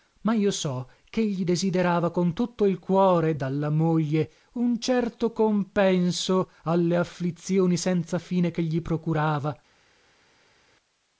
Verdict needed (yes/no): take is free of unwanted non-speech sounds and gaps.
yes